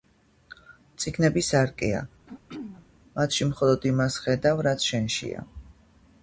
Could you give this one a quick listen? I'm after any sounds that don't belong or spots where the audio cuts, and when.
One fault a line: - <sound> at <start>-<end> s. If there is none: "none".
- throat clearing at 2.3-2.9 s